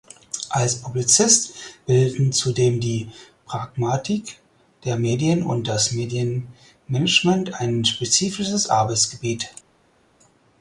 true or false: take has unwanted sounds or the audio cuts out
false